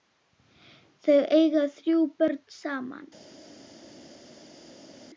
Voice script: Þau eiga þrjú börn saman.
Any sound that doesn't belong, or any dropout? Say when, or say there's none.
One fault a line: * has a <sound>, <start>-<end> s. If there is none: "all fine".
all fine